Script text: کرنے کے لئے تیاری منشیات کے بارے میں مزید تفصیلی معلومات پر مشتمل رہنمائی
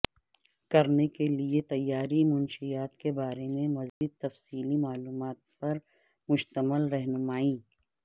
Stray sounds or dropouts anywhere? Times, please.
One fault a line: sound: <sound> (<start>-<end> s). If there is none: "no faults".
sound: dropout (3.9-4.0 s)